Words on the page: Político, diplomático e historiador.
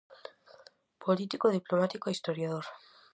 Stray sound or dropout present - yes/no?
no